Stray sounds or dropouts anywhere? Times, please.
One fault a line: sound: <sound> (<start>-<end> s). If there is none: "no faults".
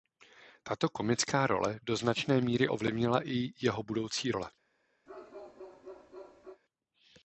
sound: bark (5.1-6.6 s)